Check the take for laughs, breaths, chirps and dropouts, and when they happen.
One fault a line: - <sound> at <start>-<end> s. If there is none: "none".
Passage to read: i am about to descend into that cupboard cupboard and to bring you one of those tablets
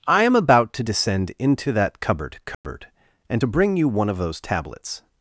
- dropout at 2.5-2.6 s